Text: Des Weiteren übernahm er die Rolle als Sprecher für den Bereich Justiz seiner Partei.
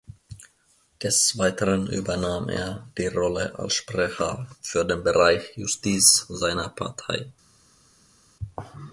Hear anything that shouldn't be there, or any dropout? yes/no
no